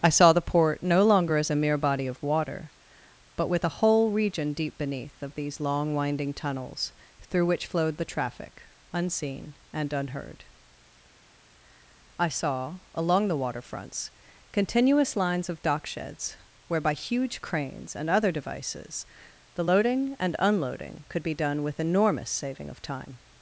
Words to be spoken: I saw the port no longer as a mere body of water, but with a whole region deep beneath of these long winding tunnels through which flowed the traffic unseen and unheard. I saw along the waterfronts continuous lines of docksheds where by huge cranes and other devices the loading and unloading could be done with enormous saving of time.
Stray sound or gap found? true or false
false